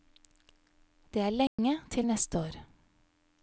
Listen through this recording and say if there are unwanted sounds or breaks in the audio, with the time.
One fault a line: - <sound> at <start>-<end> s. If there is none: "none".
- dropout at 1.5-1.6 s